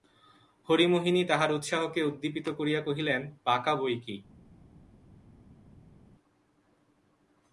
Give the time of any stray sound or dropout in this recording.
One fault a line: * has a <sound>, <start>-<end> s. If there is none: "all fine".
all fine